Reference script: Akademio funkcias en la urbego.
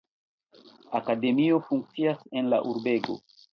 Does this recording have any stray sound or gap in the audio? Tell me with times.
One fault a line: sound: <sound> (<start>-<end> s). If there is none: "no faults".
no faults